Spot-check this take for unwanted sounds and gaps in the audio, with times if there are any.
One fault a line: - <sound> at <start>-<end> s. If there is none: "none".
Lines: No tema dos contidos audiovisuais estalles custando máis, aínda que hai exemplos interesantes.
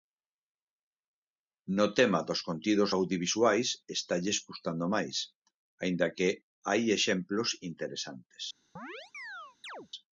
- chirp at 8.8-9.9 s